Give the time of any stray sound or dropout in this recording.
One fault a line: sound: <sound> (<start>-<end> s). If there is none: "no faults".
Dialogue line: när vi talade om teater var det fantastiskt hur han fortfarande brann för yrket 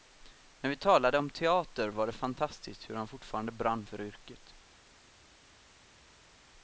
no faults